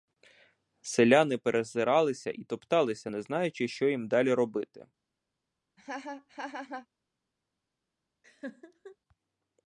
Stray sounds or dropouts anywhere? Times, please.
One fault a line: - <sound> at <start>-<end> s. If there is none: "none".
- laugh at 5.8-6.9 s
- laugh at 8.2-9.0 s